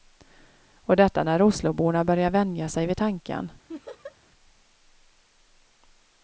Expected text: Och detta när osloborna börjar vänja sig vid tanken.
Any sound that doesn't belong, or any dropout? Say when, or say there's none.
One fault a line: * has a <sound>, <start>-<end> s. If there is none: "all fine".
* has a laugh, 3.7-4.2 s